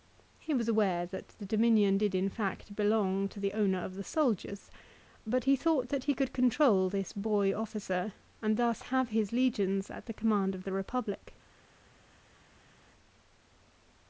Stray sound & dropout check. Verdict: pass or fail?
pass